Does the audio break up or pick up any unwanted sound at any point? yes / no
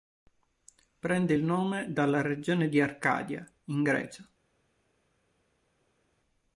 no